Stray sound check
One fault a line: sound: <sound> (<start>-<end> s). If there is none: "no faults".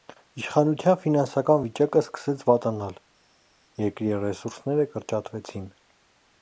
no faults